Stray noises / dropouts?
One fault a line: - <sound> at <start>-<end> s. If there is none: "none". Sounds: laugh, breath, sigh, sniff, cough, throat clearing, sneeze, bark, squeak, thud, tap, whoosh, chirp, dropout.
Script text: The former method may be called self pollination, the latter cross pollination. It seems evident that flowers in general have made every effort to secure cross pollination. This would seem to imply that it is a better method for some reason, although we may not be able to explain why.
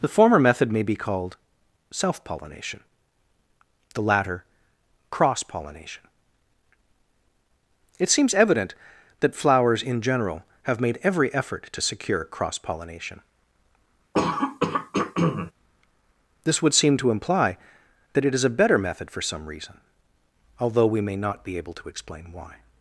- throat clearing at 14.1-15.5 s